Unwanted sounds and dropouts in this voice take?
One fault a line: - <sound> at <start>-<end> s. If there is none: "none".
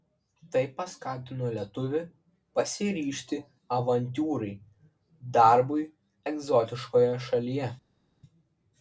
none